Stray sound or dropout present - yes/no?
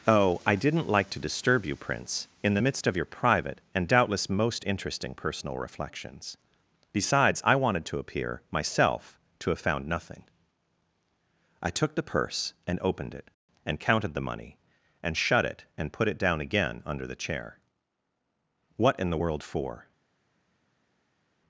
no